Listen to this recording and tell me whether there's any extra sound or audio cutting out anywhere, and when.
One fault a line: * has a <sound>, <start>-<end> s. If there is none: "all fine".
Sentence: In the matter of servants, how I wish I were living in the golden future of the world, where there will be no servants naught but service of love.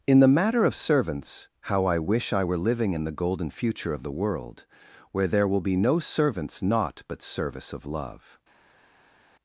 all fine